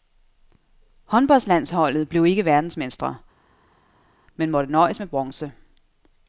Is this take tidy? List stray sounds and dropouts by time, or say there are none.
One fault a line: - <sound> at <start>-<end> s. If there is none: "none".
none